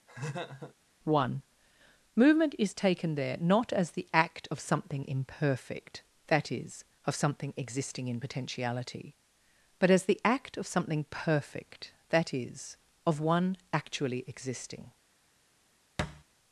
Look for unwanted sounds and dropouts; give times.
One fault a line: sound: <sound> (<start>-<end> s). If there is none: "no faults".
sound: laugh (0.1-0.7 s)
sound: thud (16.0-16.2 s)